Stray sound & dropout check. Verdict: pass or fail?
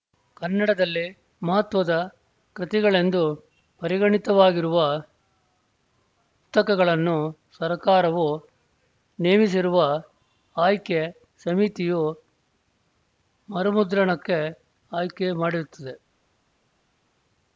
pass